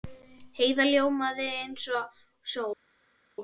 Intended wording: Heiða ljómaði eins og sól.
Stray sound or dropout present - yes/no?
no